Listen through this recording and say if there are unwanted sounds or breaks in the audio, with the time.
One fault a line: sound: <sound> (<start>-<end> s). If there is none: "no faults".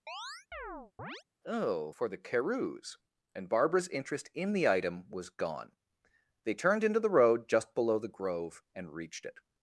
sound: chirp (0.1-1.2 s)